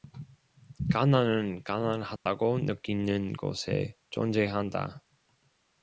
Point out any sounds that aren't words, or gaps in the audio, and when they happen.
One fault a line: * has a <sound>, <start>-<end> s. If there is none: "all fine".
* has a dropout, 2.2-2.3 s